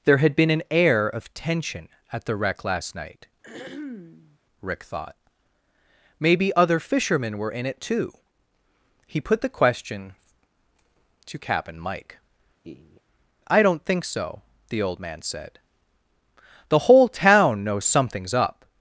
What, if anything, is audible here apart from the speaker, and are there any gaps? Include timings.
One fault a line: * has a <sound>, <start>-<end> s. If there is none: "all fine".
* has a throat clearing, 3.4-4.4 s
* has a laugh, 12.6-13.0 s